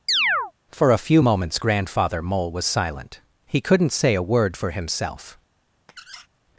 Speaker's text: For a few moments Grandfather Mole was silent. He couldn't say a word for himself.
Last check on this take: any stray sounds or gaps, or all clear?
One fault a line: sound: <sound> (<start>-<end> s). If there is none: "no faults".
sound: chirp (0.1-0.5 s)
sound: squeak (5.9-6.3 s)